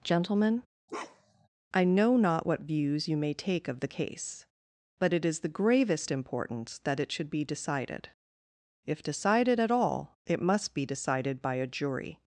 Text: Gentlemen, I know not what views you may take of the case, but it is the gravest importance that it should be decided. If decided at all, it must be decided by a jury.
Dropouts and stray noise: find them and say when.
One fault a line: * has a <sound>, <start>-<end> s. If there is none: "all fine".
* has a bark, 0.9-1.5 s